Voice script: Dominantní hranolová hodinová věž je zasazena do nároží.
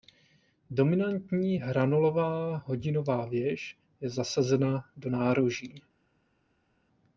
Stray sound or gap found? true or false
false